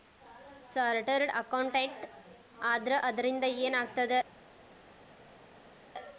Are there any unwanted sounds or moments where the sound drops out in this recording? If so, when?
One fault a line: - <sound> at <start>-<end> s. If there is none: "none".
none